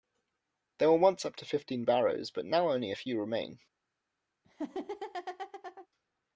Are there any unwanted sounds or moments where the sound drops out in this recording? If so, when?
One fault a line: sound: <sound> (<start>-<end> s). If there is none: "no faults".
sound: laugh (4.4-5.9 s)